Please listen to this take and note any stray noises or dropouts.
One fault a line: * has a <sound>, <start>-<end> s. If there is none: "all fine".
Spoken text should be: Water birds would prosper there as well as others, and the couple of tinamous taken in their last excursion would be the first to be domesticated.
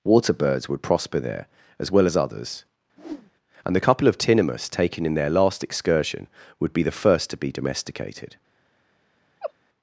* has a whoosh, 3.0-3.3 s
* has a laugh, 9.4-9.5 s